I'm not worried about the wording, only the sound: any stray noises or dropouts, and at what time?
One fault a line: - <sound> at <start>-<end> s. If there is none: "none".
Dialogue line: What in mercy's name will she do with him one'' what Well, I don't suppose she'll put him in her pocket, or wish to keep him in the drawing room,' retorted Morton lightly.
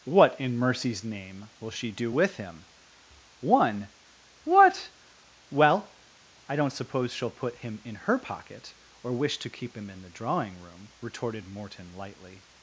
none